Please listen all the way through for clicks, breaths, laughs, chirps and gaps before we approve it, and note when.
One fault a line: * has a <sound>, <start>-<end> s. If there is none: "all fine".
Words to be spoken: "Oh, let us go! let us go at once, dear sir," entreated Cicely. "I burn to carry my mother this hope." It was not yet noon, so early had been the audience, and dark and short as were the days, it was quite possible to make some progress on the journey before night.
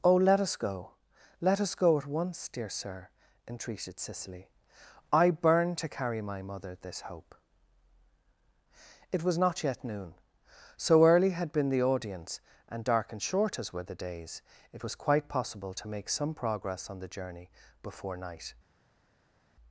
all fine